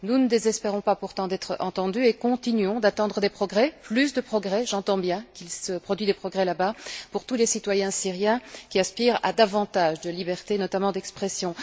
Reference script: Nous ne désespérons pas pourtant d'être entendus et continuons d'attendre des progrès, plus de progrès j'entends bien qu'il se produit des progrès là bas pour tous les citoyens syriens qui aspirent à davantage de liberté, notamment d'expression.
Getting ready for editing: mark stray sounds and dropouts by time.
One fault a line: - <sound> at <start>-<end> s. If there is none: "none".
none